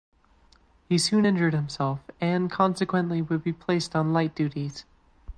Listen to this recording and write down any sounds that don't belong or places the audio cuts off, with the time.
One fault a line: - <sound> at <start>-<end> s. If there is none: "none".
none